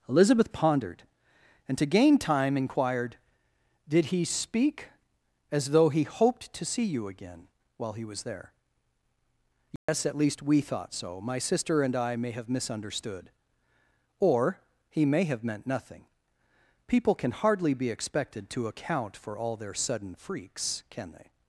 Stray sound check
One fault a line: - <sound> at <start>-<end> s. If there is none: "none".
- dropout at 9.8-9.9 s